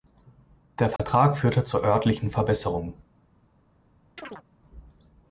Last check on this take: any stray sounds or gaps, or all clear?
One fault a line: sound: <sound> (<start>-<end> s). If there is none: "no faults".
sound: dropout (1.0-1.0 s)
sound: chirp (4.2-4.4 s)